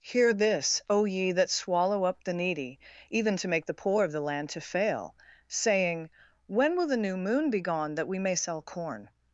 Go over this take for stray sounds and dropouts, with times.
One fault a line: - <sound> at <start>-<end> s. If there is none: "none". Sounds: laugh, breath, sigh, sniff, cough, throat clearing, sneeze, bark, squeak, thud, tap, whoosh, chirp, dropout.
none